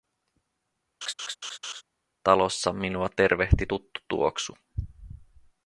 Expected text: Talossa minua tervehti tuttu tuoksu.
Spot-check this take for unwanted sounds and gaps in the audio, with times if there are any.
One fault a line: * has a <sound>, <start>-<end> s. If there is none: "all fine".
* has a laugh, 1.0-1.8 s